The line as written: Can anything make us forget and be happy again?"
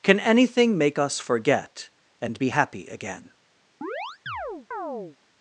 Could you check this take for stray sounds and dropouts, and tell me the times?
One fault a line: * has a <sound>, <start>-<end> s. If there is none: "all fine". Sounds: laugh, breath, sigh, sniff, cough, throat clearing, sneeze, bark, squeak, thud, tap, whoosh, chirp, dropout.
* has a chirp, 3.8-5.2 s